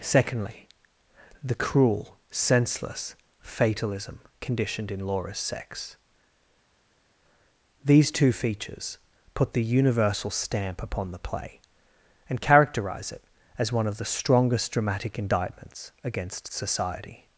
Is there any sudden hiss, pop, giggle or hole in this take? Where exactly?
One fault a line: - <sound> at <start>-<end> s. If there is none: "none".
none